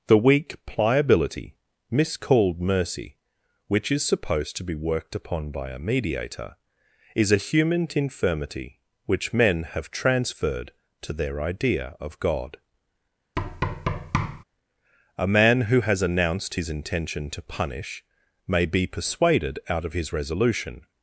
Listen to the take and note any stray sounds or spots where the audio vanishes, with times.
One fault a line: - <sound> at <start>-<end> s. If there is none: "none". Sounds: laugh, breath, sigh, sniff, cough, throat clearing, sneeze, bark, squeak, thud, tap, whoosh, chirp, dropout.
- thud at 13.4-14.4 s